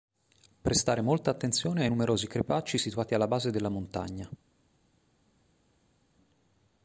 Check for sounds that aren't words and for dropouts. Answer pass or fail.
pass